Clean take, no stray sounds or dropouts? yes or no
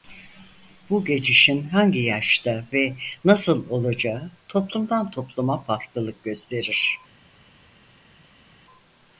yes